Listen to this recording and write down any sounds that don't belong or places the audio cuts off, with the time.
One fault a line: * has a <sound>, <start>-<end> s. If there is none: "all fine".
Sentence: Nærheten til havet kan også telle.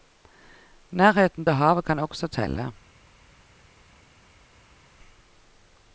all fine